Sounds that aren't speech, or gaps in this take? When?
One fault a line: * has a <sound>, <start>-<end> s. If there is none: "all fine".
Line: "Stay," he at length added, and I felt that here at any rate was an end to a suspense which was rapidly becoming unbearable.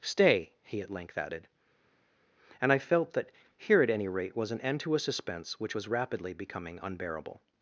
all fine